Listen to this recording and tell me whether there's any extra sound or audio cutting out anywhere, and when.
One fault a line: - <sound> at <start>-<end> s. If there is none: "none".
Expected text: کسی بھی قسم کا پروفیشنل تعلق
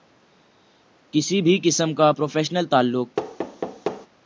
- thud at 3.2-4.1 s